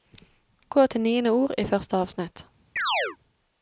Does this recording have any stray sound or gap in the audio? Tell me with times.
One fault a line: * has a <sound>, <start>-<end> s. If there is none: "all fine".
* has a chirp, 2.8-3.2 s